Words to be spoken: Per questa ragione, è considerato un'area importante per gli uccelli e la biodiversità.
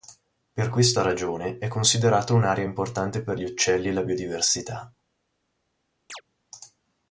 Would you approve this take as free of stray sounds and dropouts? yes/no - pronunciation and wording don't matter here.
no